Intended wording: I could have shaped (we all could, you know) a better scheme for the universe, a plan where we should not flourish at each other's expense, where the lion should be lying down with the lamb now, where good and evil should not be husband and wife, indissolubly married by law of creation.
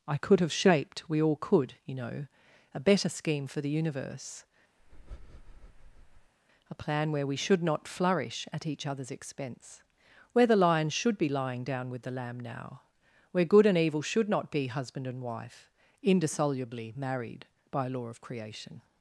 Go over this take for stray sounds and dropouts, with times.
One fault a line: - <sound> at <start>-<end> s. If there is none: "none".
- breath at 4.8-6.3 s